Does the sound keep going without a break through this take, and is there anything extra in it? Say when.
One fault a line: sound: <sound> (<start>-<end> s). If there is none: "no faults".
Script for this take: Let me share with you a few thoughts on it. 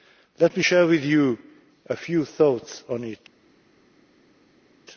no faults